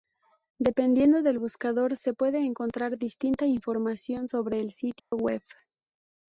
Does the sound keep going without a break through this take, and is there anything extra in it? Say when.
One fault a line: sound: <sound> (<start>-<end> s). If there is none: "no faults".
sound: dropout (5.0-5.1 s)